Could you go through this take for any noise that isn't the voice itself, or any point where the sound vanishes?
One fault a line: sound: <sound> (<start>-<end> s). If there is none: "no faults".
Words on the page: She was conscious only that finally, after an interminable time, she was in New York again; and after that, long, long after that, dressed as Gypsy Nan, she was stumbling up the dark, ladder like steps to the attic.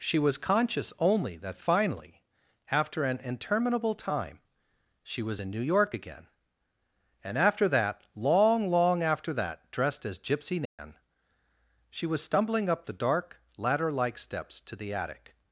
sound: dropout (10.7-10.8 s)